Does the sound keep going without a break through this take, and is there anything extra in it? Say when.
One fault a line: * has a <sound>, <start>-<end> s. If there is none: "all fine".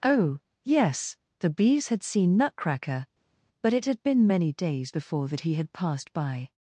all fine